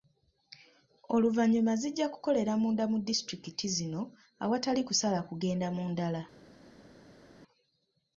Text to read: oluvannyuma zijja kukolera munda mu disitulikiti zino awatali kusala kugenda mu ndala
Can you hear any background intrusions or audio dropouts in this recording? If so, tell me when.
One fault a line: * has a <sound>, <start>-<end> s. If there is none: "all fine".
all fine